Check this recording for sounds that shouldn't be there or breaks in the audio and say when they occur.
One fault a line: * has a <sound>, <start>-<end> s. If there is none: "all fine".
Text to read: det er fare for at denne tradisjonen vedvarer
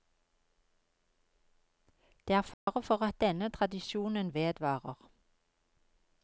* has a dropout, 2.5-2.7 s